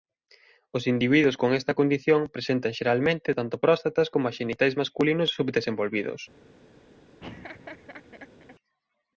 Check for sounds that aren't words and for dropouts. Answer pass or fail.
fail